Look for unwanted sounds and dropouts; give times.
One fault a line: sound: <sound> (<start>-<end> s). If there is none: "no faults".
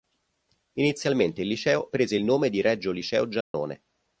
sound: dropout (3.4-3.5 s)